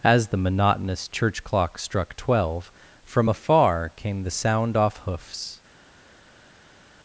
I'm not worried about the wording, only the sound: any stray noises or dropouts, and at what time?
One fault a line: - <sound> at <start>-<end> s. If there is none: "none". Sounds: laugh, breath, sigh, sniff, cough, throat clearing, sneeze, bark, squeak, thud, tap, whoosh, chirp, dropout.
none